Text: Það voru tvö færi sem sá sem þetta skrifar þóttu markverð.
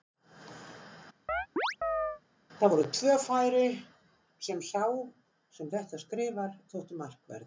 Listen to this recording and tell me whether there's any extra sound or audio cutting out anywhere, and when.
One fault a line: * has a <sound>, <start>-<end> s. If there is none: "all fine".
* has a chirp, 1.3-2.2 s